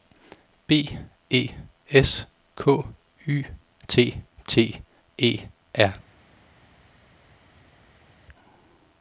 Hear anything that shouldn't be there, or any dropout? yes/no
no